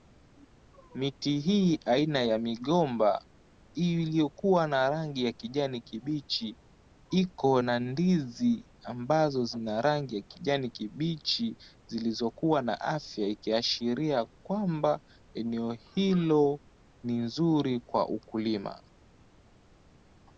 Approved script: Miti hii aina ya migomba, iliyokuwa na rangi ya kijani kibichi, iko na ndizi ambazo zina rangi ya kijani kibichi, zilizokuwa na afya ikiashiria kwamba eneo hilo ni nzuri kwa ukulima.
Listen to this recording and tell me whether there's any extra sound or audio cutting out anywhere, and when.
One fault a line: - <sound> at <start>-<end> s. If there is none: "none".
none